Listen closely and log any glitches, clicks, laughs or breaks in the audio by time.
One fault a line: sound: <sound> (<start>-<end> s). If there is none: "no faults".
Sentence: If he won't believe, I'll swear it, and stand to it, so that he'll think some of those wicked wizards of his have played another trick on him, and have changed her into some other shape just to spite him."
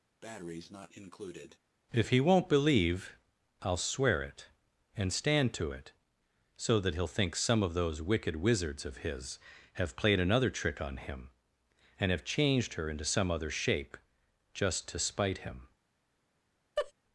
sound: breath (0.2-1.6 s)
sound: laugh (16.8-16.9 s)